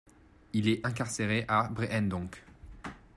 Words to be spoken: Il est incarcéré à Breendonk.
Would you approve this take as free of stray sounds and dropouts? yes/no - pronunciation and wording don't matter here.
yes